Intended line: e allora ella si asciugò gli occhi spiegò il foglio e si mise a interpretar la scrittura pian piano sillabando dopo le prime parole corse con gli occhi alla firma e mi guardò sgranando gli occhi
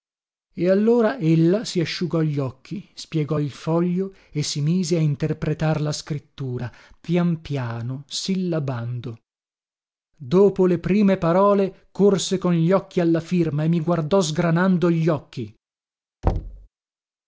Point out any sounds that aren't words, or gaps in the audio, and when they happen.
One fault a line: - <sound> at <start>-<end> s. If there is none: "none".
- thud at 16.2-16.7 s